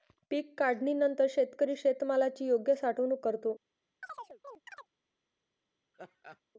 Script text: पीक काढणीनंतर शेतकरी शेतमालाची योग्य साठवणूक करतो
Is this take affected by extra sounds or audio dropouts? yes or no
yes